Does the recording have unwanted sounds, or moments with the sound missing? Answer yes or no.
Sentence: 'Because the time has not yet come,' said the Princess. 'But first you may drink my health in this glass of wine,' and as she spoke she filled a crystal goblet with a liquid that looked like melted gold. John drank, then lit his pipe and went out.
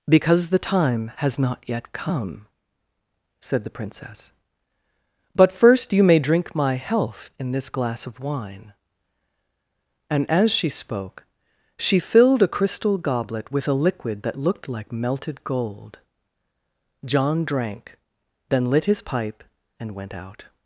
no